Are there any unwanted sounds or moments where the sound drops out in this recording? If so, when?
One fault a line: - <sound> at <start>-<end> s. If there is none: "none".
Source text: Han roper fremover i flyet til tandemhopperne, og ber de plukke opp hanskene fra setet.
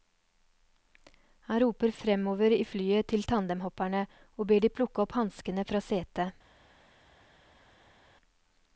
none